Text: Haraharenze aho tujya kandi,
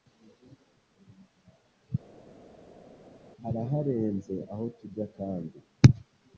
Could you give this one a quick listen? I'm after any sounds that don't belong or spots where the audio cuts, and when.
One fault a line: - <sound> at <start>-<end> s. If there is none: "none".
none